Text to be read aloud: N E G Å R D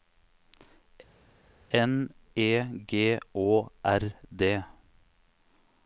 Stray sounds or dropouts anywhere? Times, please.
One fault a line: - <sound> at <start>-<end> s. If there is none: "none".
none